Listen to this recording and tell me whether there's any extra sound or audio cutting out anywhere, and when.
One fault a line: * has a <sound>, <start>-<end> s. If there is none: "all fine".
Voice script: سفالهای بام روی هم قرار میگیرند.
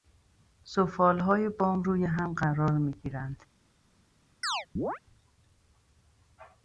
* has a chirp, 4.4-5.0 s